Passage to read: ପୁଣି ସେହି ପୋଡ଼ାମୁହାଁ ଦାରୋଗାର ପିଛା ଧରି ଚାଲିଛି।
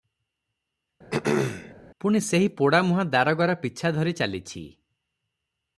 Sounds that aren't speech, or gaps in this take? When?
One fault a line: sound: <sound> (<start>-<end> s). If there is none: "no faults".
sound: throat clearing (1.1-1.7 s)